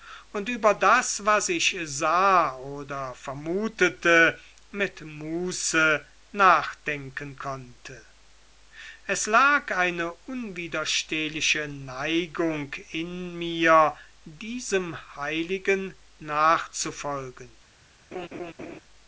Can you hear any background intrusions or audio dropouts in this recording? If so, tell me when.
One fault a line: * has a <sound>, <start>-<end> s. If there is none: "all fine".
* has a laugh, 18.1-18.8 s